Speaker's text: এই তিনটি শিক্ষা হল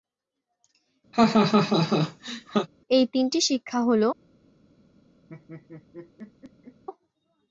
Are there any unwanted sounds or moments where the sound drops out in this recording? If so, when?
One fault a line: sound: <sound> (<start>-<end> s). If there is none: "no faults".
sound: laugh (1.1-2.7 s)
sound: laugh (5.3-6.8 s)